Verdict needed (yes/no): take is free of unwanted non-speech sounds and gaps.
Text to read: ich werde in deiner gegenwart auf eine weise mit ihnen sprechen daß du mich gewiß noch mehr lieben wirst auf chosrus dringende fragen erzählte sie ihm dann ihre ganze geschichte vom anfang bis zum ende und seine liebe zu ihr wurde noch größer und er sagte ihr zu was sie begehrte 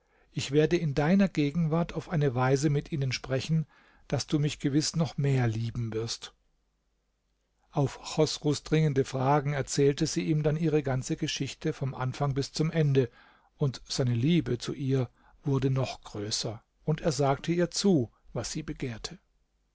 yes